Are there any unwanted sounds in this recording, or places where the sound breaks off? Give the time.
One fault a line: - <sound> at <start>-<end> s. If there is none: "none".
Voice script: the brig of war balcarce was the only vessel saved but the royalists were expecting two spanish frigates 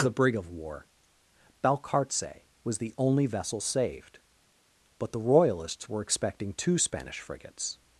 none